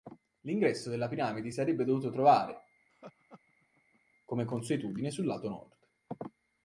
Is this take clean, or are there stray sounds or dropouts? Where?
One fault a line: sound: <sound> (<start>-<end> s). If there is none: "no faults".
sound: laugh (2.9-4.0 s)